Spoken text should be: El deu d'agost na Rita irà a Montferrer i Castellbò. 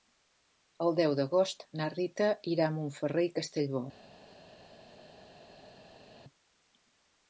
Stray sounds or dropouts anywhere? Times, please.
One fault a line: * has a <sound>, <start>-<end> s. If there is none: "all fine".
all fine